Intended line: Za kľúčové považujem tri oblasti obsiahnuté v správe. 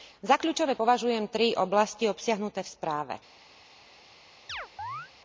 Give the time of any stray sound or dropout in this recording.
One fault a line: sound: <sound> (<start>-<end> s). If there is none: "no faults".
sound: chirp (4.5-5.1 s)